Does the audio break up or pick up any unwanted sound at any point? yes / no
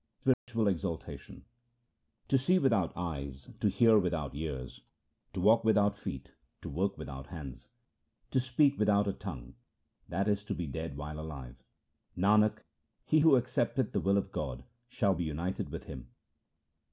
yes